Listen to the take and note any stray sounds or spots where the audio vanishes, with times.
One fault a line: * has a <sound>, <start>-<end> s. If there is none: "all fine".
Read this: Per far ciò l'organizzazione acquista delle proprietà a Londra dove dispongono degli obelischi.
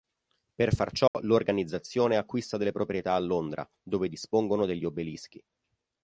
* has a dropout, 1.1-1.1 s